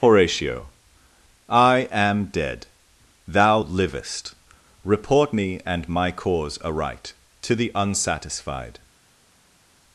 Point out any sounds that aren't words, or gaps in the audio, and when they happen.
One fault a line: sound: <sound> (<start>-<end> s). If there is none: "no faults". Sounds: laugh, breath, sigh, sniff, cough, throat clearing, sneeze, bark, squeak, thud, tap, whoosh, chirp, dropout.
no faults